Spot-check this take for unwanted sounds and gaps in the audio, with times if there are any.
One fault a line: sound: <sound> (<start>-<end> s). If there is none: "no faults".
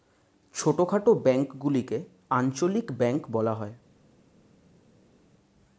no faults